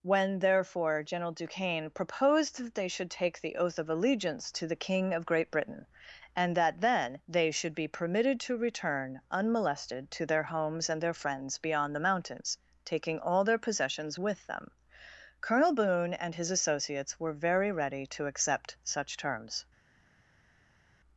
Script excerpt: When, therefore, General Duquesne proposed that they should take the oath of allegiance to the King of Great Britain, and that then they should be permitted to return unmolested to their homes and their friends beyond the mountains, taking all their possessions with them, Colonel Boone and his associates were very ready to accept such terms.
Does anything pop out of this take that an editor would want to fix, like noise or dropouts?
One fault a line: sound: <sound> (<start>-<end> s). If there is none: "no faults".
no faults